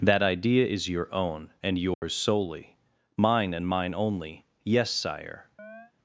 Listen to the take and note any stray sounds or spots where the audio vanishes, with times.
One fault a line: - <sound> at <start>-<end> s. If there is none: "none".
- dropout at 1.9-2.0 s
- chirp at 5.6-5.9 s